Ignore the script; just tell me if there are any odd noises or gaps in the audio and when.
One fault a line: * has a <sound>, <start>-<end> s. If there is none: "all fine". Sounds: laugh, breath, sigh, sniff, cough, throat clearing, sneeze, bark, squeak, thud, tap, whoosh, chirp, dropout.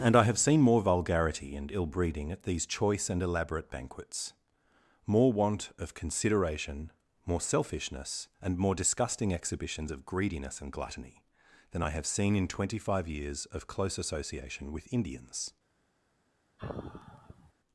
* has a sigh, 16.6-17.5 s